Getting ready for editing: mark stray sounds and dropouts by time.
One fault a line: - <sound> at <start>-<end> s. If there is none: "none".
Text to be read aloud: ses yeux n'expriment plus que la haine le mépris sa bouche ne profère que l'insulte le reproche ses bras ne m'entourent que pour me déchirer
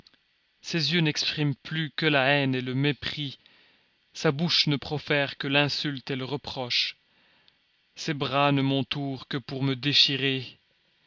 none